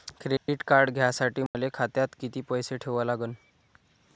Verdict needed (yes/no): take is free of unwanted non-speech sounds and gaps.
no